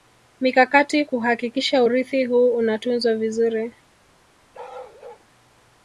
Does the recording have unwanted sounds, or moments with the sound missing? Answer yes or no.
yes